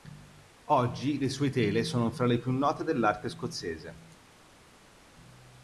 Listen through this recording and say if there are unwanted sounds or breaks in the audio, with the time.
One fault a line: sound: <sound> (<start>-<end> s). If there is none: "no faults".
no faults